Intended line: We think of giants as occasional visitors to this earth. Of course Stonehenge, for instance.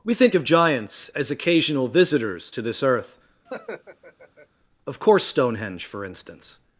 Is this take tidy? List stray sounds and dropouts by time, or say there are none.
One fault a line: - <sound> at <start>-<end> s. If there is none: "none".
- laugh at 3.5-4.5 s